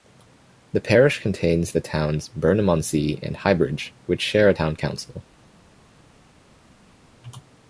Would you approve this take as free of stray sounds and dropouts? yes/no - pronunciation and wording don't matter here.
yes